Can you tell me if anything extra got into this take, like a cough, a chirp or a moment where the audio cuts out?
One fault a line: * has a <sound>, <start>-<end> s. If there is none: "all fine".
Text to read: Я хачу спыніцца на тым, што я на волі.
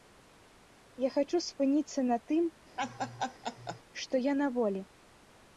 * has a laugh, 2.8-3.8 s